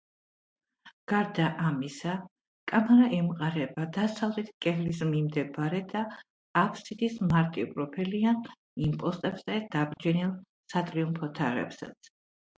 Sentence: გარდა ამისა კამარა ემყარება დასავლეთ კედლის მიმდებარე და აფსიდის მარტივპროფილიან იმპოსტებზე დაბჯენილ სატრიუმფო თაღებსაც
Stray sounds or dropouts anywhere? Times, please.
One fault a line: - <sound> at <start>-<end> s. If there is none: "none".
- dropout at 9.9-10.0 s